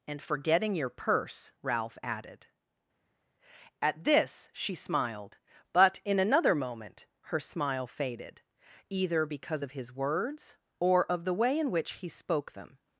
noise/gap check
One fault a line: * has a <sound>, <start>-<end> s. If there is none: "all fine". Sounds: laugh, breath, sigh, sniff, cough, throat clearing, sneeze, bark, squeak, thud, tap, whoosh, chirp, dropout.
all fine